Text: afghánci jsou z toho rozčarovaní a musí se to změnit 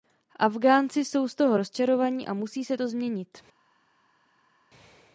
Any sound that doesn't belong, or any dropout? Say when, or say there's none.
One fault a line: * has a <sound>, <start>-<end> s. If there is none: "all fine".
all fine